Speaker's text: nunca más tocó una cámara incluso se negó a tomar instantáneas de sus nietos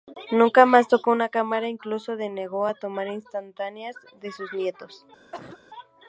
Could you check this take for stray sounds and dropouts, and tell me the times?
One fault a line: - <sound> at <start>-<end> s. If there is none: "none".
- cough at 5.3-5.6 s